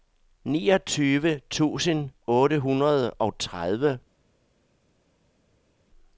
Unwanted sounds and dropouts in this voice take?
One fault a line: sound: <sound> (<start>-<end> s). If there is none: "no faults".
no faults